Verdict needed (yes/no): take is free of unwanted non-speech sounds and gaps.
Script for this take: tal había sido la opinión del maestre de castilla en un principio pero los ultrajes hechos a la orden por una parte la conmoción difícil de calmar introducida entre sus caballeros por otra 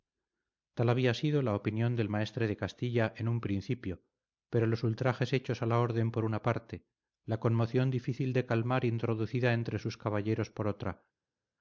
yes